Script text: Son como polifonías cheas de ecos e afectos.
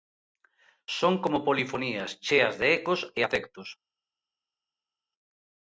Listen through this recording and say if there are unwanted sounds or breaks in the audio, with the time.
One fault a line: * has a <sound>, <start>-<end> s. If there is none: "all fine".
all fine